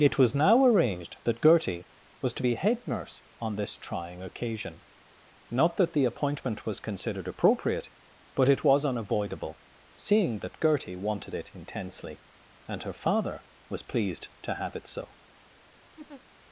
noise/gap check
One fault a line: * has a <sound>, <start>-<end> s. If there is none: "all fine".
* has a laugh, 16.0-16.2 s